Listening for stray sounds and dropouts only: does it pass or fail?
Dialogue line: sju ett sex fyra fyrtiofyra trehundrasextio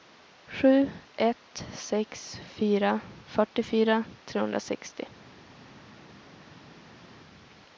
pass